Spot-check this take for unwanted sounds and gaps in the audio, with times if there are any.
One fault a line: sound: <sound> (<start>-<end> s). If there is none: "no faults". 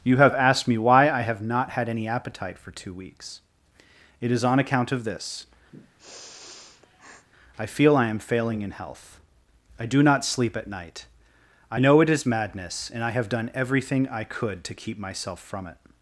sound: sniff (5.7-7.3 s)